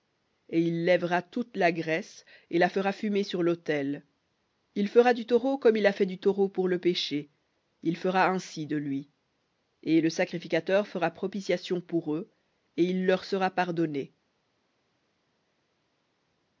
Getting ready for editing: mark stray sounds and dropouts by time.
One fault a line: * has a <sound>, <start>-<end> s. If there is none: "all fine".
all fine